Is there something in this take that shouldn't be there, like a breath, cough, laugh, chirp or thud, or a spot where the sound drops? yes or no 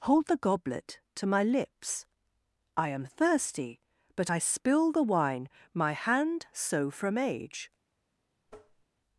yes